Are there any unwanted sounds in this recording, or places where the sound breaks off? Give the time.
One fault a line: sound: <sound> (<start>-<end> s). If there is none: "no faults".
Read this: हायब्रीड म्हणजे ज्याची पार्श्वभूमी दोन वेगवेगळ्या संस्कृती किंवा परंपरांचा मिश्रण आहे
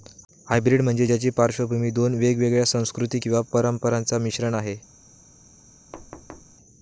sound: thud (5.9-6.6 s)